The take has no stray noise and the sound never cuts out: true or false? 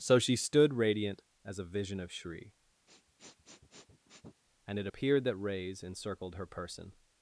false